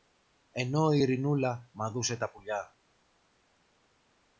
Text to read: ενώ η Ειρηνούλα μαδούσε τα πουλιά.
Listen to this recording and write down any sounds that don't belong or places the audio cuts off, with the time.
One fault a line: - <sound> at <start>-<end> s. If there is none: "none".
none